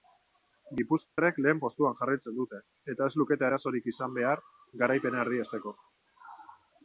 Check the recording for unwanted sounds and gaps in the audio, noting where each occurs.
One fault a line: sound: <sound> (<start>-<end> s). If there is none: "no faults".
sound: dropout (1.0-1.2 s)